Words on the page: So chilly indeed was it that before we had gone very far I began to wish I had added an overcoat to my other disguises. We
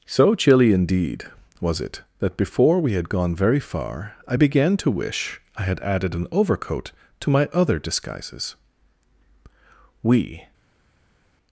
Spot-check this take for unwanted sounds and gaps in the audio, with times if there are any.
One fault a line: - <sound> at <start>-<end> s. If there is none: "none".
none